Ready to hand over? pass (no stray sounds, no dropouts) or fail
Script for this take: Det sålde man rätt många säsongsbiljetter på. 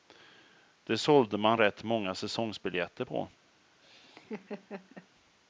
fail